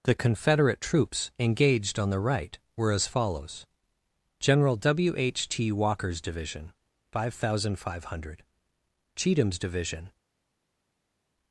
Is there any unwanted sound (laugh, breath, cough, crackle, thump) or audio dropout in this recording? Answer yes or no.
no